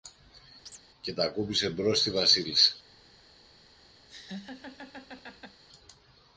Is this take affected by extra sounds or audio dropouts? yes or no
yes